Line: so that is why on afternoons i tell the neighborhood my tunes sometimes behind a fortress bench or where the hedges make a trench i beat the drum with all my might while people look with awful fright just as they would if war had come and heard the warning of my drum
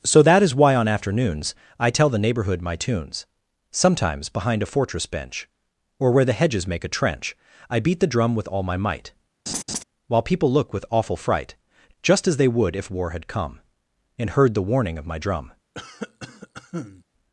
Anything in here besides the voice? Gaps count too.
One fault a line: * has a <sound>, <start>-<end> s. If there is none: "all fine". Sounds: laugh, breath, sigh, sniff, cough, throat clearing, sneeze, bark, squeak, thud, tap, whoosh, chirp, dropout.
* has a laugh, 9.5-9.8 s
* has a cough, 15.7-17.0 s